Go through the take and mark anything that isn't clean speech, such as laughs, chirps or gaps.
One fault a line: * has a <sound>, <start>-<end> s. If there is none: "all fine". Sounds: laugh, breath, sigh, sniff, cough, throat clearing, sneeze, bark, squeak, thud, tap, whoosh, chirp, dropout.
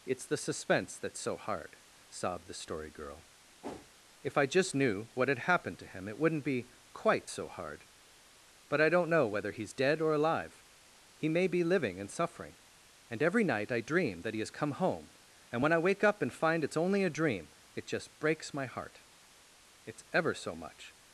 * has a whoosh, 3.6-3.9 s